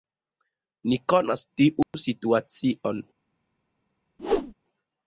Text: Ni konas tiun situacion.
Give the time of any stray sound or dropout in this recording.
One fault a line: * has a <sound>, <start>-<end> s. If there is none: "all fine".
* has a dropout, 1.8-1.9 s
* has a whoosh, 4.2-4.5 s